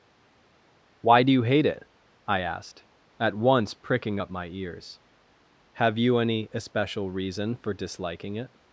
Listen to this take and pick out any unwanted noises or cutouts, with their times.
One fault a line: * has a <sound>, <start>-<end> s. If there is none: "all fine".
all fine